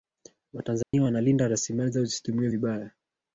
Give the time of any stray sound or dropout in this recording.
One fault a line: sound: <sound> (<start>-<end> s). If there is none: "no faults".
sound: dropout (0.8-0.9 s)